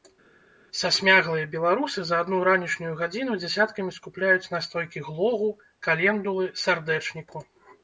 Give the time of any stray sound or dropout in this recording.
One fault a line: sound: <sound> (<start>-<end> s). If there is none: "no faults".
no faults